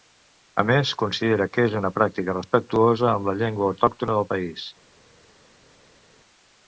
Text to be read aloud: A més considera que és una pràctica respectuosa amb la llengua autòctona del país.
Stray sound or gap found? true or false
false